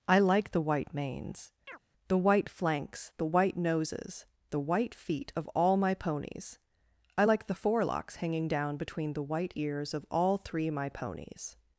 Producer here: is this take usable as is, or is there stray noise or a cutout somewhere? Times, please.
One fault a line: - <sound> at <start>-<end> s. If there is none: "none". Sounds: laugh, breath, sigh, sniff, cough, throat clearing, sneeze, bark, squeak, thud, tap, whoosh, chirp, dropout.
- chirp at 1.7-1.8 s